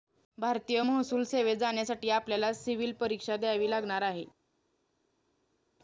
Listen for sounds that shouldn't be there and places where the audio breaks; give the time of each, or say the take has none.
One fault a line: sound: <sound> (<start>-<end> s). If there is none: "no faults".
no faults